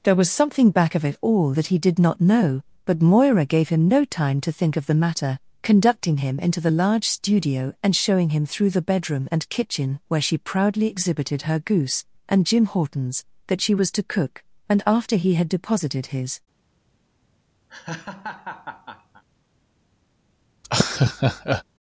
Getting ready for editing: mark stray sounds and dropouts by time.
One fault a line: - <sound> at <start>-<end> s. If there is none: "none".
- laugh at 17.7-19.2 s
- laugh at 20.6-21.6 s